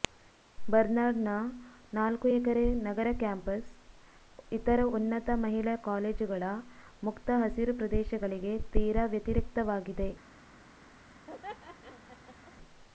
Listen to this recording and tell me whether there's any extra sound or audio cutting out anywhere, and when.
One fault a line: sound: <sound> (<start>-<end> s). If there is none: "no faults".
sound: laugh (11.3-12.5 s)